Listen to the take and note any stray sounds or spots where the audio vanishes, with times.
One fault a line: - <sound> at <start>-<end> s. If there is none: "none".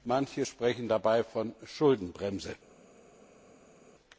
none